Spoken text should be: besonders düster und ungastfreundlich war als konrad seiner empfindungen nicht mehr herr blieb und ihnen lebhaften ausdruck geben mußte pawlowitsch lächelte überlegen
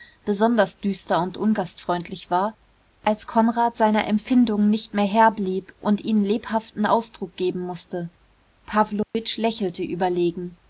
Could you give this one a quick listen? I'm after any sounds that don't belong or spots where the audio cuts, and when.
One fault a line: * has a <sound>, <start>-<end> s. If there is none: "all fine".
* has a dropout, 9.0-9.1 s